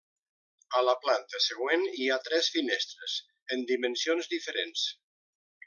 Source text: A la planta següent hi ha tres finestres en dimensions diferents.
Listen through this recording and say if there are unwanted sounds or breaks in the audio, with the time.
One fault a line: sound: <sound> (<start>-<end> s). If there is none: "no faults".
no faults